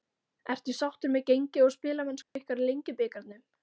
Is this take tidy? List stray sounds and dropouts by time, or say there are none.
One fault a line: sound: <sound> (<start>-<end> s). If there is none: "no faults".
sound: dropout (2.2-2.4 s)